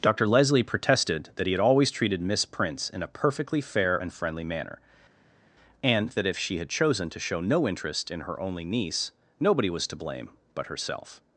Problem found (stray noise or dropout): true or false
false